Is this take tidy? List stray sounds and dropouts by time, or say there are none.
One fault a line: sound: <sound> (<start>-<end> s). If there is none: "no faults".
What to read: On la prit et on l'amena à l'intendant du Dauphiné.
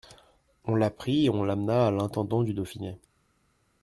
no faults